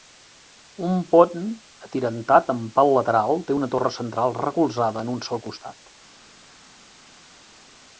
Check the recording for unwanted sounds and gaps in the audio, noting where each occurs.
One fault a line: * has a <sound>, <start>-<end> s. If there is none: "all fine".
all fine